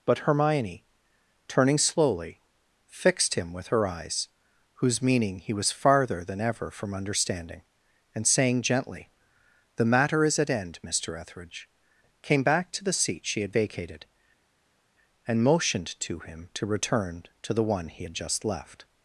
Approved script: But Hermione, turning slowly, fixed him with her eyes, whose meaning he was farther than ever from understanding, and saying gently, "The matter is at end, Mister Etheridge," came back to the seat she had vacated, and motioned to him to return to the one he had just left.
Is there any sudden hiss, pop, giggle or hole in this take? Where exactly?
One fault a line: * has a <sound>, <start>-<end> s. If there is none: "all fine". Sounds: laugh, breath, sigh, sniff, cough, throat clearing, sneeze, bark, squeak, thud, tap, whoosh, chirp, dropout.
all fine